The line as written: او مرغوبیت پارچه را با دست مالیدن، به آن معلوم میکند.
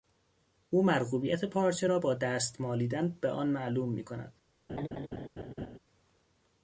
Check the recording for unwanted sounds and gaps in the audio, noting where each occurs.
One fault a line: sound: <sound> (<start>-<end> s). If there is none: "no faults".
sound: laugh (4.7-5.8 s)